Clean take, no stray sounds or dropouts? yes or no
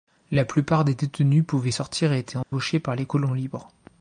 no